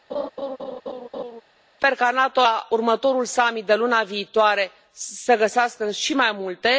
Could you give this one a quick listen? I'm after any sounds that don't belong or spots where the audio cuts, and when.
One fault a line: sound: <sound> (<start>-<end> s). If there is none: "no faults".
sound: laugh (0.1-1.4 s)